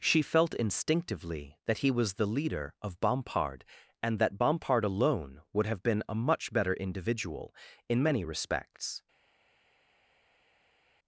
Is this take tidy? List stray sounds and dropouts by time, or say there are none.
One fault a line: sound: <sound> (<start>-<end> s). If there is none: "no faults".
no faults